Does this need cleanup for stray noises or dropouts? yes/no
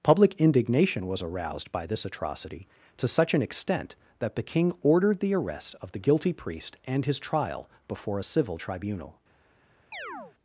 yes